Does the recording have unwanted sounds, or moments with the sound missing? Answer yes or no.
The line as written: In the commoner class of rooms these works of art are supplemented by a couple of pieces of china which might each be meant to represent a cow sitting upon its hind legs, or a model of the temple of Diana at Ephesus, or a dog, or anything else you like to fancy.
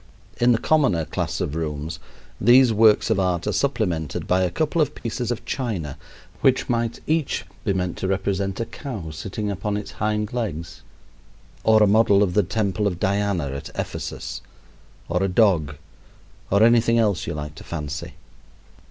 yes